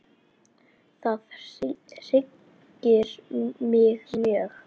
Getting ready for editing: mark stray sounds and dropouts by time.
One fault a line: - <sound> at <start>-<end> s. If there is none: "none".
none